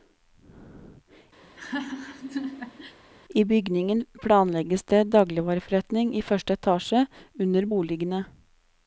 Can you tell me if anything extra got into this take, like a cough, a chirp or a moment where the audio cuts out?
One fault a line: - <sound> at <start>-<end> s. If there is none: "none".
- laugh at 1.4-3.0 s